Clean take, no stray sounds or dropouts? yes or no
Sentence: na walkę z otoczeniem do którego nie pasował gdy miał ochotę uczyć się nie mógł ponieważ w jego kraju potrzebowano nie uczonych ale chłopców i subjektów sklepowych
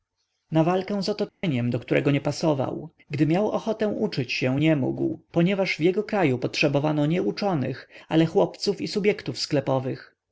no